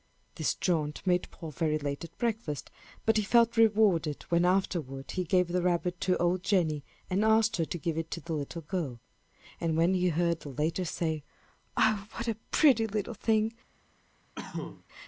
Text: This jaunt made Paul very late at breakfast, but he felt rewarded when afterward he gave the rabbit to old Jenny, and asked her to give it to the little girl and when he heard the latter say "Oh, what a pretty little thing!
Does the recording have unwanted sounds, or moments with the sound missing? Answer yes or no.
yes